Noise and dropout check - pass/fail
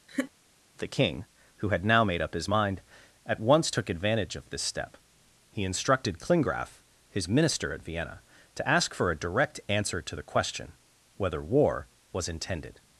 fail